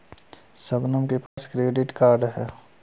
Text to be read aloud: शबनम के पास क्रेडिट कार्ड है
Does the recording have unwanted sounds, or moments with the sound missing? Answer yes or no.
yes